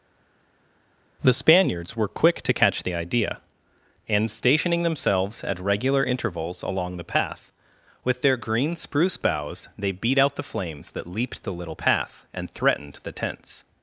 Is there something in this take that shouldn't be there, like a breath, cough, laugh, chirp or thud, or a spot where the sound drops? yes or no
no